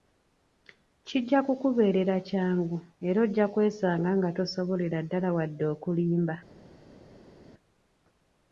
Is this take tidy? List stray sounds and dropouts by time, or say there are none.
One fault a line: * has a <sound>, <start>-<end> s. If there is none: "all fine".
all fine